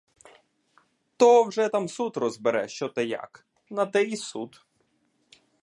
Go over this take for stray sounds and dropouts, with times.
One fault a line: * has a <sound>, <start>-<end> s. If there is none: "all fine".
all fine